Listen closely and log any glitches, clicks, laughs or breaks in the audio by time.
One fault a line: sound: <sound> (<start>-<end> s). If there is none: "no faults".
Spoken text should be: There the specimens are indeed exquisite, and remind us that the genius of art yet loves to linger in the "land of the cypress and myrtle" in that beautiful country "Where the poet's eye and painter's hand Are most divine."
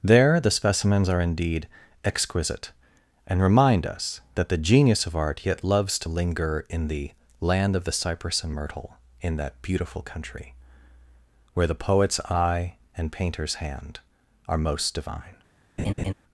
sound: laugh (15.8-16.1 s)